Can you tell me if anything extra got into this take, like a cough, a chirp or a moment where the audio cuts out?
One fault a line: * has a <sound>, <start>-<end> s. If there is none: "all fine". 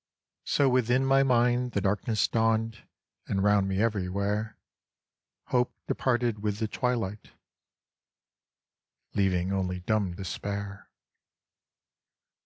all fine